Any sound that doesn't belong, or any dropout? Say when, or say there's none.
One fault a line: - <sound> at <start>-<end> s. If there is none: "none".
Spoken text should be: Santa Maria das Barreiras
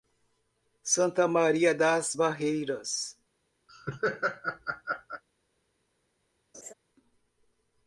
- laugh at 3.7-5.2 s
- laugh at 6.5-6.7 s